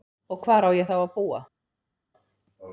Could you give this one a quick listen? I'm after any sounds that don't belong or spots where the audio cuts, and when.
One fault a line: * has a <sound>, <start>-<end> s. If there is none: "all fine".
all fine